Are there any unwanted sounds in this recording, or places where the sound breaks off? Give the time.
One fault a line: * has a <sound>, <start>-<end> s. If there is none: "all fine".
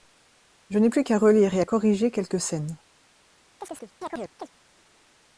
* has a chirp, 3.6-4.5 s